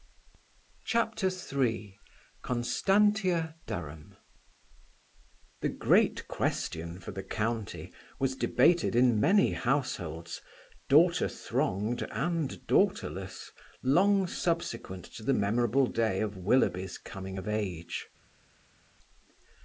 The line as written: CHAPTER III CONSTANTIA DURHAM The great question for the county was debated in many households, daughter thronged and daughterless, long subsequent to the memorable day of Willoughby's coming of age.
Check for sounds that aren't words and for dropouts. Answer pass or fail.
pass